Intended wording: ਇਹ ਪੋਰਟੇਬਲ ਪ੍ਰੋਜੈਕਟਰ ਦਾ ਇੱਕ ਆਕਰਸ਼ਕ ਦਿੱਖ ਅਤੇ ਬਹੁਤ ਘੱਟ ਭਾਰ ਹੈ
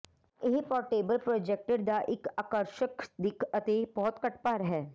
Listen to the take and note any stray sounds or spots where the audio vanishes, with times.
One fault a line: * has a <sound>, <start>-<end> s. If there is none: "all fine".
all fine